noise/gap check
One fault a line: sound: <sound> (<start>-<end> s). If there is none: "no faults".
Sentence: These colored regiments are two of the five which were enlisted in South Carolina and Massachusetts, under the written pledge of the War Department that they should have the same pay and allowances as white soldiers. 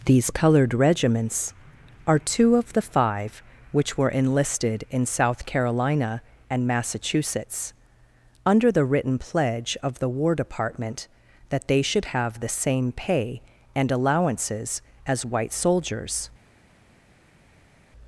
no faults